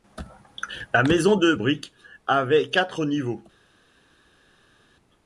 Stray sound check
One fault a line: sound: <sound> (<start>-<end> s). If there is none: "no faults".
no faults